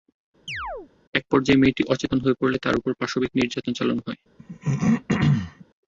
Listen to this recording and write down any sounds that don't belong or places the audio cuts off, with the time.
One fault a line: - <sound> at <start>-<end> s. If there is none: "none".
- chirp at 0.5-0.9 s
- throat clearing at 4.4-5.7 s